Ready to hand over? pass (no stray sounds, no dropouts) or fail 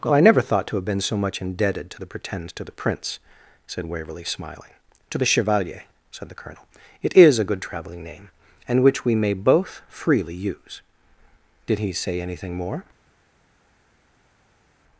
pass